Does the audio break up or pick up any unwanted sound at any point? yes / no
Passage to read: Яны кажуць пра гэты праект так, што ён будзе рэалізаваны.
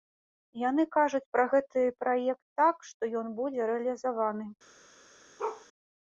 yes